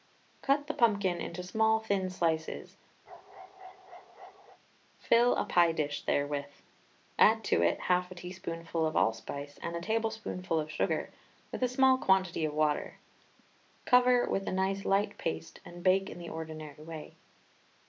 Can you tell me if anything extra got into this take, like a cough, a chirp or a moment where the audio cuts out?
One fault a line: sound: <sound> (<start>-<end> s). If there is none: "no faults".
sound: bark (3.1-4.6 s)